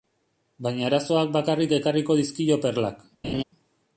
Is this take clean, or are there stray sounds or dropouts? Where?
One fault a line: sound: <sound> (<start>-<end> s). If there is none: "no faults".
sound: laugh (3.2-3.4 s)